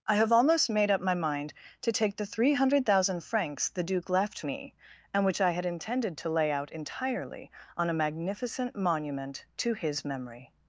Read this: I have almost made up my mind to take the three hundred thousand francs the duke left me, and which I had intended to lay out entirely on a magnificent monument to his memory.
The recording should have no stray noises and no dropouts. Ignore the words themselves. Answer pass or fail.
pass